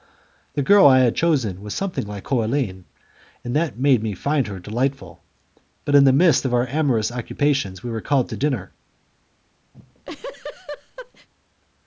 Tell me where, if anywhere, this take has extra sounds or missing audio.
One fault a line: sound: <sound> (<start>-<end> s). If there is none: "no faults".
sound: laugh (9.7-11.3 s)